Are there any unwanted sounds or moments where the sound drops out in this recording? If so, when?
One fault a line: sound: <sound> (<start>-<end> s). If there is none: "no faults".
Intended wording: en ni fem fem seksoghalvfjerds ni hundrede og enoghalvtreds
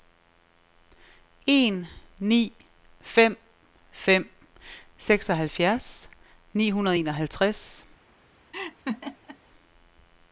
sound: laugh (8.5-9.4 s)